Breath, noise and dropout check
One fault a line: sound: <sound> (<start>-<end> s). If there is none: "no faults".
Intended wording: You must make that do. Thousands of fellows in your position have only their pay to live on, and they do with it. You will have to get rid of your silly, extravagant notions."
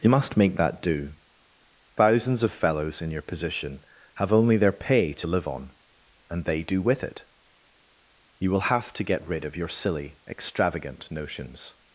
no faults